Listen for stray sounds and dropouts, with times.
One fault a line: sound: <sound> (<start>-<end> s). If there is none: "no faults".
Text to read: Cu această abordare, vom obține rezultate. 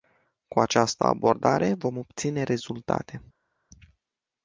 no faults